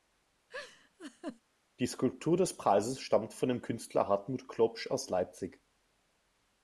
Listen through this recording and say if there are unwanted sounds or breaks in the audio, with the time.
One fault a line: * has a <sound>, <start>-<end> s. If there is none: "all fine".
* has a laugh, 0.5-1.4 s